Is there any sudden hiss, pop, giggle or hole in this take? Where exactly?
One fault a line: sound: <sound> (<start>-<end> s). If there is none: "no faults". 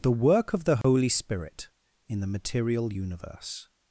sound: dropout (0.8-0.8 s)